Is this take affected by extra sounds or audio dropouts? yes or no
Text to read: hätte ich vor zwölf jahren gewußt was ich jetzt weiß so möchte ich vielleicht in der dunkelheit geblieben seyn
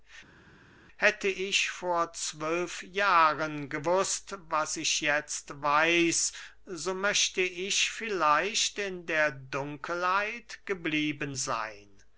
no